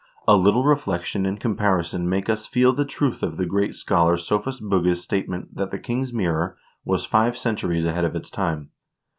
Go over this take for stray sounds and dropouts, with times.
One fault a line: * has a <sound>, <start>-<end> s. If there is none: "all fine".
all fine